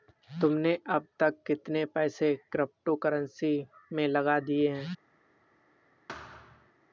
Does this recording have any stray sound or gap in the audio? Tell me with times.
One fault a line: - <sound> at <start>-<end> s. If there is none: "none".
- thud at 6.1-6.7 s